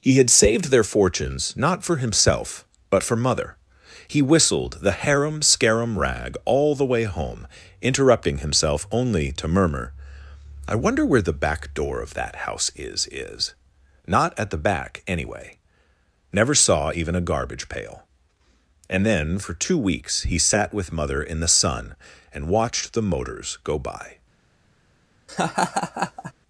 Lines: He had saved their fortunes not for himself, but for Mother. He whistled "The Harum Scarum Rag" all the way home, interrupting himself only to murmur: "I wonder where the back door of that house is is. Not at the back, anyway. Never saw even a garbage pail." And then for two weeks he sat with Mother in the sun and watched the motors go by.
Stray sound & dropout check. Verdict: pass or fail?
fail